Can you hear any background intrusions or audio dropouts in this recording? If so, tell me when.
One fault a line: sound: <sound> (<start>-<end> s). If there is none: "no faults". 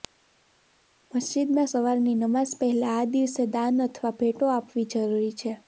no faults